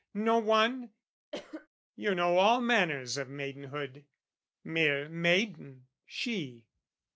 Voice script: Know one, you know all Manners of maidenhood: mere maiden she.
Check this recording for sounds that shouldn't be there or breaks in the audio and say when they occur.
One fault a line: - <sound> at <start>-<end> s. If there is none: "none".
- cough at 1.3-1.7 s